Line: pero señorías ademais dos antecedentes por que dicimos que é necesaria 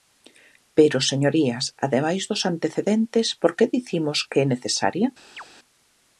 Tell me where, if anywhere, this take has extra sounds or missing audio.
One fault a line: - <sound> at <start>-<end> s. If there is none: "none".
- chirp at 5.4-5.4 s